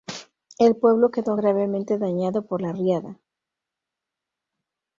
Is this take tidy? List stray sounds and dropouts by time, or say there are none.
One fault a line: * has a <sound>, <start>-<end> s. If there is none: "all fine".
all fine